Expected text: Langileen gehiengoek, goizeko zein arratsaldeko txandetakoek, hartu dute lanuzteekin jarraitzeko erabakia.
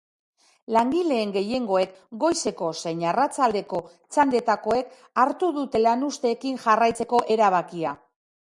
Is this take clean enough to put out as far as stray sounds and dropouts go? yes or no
yes